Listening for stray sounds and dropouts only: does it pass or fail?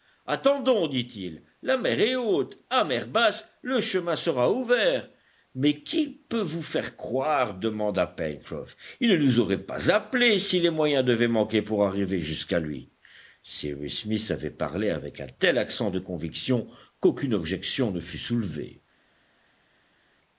pass